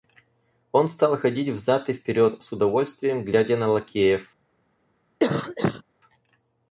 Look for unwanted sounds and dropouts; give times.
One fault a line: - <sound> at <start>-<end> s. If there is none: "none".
- cough at 5.2-5.8 s